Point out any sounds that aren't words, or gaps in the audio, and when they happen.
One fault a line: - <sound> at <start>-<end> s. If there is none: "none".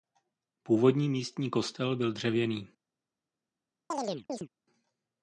- chirp at 3.9-4.5 s